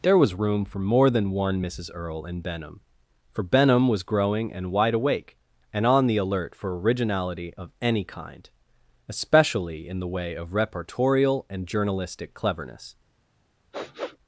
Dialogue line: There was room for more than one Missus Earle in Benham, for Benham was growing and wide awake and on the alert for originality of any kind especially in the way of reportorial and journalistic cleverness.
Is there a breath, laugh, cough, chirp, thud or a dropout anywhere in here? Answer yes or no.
yes